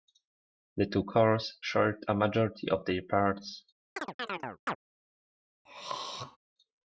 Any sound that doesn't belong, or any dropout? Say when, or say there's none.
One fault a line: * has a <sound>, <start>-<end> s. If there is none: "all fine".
* has a chirp, 4.0-4.8 s
* has a throat clearing, 5.6-6.4 s